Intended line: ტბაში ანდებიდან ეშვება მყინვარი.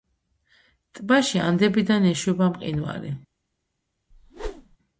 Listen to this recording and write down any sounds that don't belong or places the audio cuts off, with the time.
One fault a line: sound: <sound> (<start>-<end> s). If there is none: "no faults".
sound: whoosh (4.1-4.8 s)